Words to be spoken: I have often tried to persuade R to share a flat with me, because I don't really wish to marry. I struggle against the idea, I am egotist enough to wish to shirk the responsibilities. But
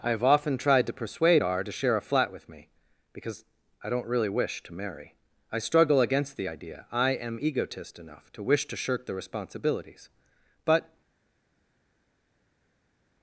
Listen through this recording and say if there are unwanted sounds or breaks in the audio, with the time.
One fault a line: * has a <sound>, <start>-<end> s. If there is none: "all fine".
all fine